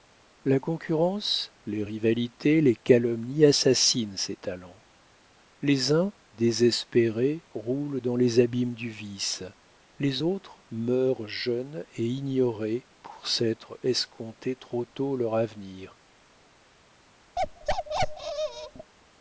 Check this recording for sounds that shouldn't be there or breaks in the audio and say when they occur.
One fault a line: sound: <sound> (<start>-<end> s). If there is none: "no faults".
sound: bark (17.4-18.9 s)